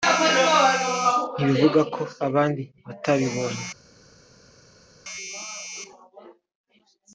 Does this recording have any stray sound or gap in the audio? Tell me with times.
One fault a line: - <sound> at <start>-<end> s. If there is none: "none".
none